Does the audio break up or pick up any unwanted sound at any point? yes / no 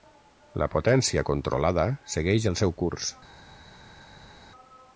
no